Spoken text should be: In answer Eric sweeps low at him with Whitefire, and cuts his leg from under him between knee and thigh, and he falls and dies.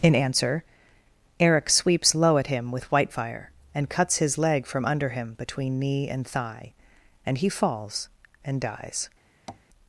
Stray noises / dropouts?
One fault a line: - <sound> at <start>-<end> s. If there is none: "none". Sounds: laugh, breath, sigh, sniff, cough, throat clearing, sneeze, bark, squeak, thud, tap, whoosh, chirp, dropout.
- tap at 9.5-9.7 s